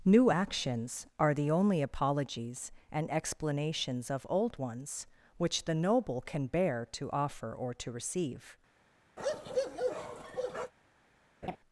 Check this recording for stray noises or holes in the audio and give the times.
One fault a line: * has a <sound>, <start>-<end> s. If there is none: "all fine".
* has a bark, 9.2-10.7 s
* has a laugh, 11.4-11.6 s